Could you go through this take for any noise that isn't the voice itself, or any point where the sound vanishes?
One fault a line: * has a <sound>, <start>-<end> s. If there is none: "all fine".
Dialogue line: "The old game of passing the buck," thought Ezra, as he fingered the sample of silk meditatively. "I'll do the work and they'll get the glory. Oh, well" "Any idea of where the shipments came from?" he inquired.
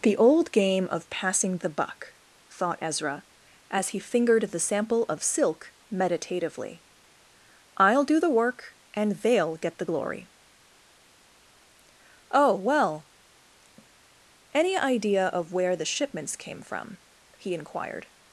all fine